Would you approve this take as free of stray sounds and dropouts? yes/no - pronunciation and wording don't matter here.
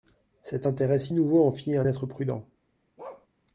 no